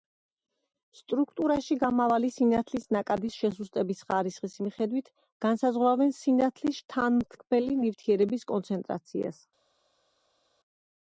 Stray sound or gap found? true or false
false